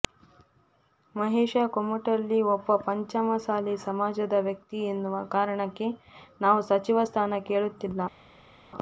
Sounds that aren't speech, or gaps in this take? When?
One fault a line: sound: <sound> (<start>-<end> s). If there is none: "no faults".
no faults